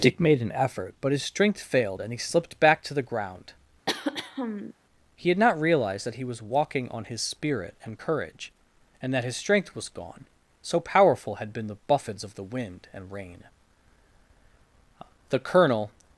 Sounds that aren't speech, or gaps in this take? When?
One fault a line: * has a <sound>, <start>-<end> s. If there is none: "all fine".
* has a throat clearing, 3.9-4.7 s